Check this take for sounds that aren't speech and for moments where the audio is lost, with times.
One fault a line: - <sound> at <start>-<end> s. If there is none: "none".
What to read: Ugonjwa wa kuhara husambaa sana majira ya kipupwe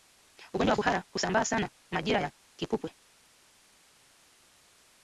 none